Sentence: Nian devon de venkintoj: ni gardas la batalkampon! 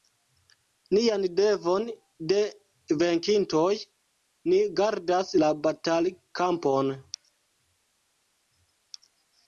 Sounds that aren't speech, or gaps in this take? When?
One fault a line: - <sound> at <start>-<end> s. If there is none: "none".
none